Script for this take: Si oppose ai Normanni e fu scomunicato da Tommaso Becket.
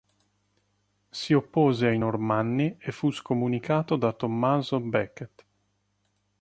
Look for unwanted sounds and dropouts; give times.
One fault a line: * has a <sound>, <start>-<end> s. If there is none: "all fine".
all fine